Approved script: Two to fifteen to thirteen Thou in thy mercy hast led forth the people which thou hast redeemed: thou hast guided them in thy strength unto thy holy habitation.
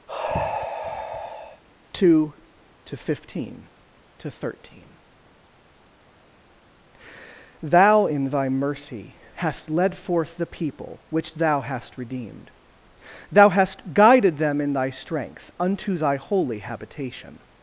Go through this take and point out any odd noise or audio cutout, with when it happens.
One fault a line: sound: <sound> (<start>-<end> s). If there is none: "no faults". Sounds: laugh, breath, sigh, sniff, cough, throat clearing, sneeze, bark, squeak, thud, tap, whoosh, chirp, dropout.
sound: sigh (0.1-1.6 s)